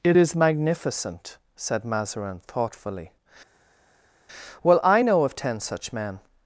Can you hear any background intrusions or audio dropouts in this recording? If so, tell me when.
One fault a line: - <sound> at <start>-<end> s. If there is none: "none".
none